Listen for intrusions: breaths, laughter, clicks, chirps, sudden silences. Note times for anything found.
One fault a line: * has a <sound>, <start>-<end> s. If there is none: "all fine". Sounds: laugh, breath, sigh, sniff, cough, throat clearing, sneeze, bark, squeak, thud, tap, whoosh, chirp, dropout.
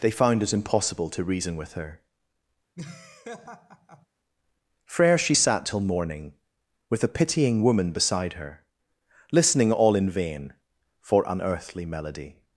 * has a laugh, 2.8-4.1 s